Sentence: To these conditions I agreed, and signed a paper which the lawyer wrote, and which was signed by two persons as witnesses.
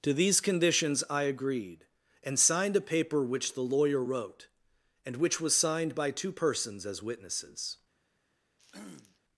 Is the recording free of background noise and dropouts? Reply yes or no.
no